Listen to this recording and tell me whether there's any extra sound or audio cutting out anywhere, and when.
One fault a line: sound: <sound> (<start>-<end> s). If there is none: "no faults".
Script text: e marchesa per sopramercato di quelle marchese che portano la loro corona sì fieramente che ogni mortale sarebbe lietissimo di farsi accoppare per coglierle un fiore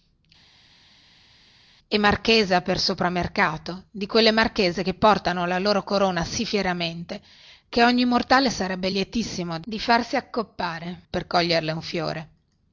no faults